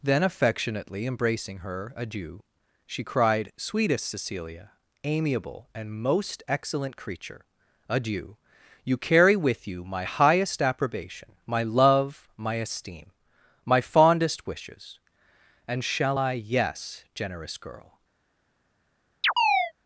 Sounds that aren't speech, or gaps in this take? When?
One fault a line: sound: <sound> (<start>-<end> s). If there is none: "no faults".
sound: chirp (19.2-19.7 s)